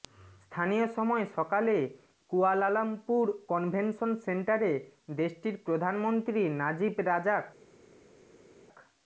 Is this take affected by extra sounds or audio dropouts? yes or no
no